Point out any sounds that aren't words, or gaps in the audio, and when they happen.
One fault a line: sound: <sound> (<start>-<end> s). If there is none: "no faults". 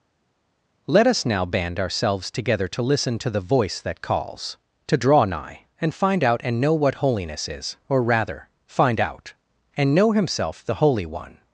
no faults